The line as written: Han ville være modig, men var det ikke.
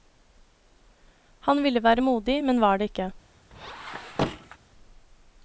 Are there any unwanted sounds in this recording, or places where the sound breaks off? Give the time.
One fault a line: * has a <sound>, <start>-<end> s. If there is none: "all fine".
* has a squeak, 3.5-4.6 s